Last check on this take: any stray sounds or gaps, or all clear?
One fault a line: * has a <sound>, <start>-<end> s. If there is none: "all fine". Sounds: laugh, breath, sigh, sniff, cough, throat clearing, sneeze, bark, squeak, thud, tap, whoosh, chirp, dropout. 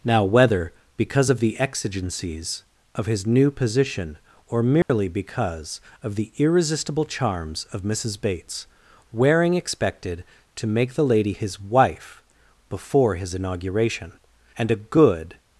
* has a dropout, 4.8-4.9 s